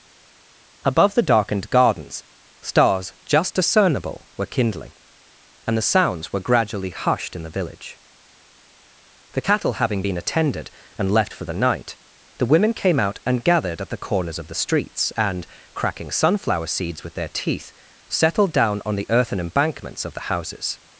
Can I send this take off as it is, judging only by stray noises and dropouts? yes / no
yes